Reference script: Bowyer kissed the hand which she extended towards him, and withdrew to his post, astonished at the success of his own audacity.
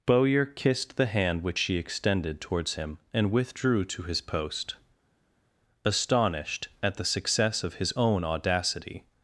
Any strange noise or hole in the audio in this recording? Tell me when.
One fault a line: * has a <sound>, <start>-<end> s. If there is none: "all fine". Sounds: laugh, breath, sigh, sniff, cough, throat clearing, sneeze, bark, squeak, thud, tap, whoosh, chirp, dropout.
all fine